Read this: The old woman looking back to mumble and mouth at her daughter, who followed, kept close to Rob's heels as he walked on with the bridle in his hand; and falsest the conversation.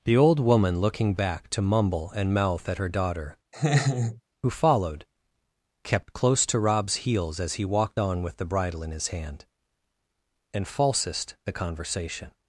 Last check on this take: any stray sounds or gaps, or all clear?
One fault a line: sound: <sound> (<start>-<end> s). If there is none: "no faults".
sound: laugh (3.5-4.2 s)